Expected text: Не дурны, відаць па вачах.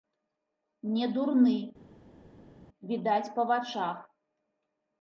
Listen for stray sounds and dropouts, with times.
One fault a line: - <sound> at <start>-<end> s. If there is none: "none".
none